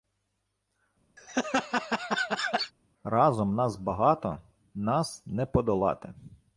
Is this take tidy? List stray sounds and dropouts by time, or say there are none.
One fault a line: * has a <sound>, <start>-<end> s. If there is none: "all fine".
* has a laugh, 1.2-2.7 s